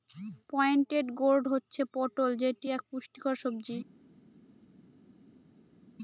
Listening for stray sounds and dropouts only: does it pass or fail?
pass